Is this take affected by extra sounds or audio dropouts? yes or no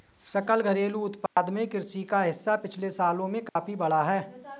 yes